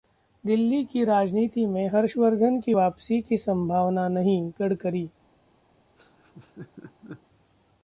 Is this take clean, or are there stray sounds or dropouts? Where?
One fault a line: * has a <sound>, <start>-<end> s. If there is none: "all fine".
* has a laugh, 6.0-7.2 s